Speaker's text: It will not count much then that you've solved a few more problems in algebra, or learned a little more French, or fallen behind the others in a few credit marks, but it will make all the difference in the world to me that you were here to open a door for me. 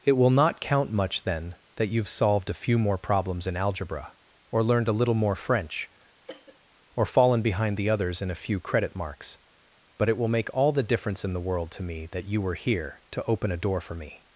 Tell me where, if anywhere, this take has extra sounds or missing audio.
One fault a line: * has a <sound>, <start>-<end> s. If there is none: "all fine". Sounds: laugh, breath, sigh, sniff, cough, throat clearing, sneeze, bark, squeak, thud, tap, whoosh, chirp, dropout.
* has a cough, 6.2-6.6 s